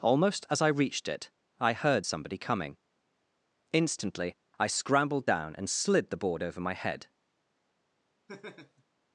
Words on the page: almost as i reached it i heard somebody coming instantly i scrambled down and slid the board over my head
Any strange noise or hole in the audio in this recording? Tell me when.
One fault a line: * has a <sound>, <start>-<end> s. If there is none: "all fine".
* has a laugh, 8.3-8.8 s